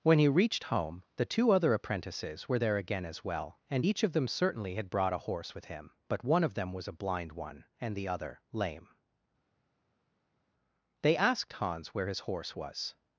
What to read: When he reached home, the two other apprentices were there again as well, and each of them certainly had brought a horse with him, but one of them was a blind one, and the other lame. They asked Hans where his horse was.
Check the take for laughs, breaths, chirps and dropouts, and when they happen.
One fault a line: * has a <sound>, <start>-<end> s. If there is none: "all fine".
all fine